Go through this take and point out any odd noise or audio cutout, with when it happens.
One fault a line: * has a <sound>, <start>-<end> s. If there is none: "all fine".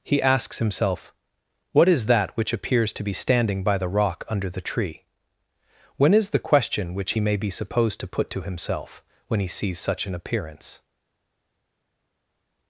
all fine